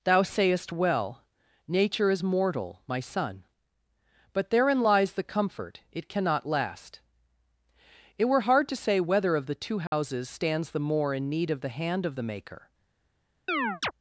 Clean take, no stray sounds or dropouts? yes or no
no